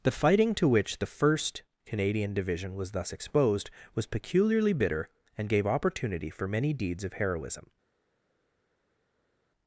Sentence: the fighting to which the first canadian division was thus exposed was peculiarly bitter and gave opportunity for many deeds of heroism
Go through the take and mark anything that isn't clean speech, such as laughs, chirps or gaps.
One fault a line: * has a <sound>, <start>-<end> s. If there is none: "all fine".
all fine